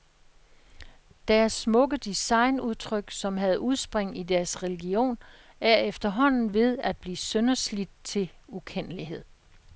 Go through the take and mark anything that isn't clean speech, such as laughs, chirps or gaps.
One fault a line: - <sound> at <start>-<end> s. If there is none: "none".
none